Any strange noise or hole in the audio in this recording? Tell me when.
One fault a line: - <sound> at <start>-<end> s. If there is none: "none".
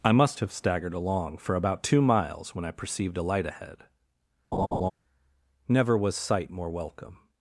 - laugh at 4.5-4.9 s